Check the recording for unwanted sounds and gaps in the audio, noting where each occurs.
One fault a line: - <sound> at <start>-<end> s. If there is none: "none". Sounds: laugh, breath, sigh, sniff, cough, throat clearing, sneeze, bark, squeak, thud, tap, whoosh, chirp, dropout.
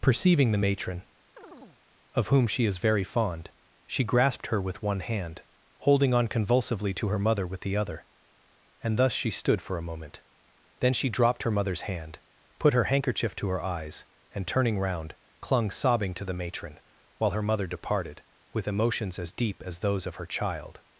- chirp at 1.4-1.8 s